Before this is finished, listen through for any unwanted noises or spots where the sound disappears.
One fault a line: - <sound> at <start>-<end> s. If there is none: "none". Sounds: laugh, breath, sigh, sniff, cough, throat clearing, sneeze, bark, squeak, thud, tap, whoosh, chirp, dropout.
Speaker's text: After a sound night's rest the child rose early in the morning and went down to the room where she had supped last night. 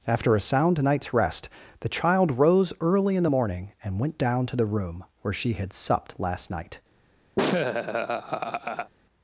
- laugh at 7.4-8.9 s